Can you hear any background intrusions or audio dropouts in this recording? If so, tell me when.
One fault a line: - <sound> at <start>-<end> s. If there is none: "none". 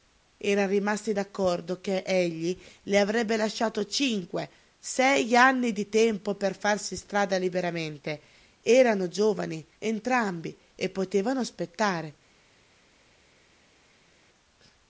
none